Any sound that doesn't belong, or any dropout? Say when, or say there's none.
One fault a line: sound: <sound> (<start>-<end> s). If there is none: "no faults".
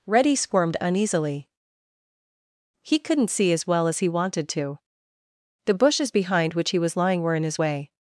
no faults